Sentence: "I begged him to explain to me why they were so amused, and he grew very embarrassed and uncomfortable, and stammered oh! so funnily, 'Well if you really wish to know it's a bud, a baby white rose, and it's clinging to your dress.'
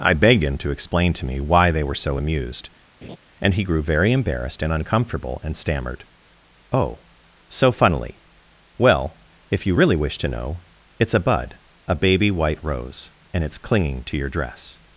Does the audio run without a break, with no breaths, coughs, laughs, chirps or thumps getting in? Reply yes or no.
no